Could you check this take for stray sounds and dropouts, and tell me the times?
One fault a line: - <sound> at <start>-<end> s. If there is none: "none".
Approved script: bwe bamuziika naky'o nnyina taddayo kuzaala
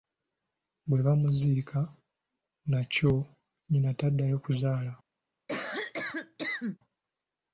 - cough at 5.5-6.8 s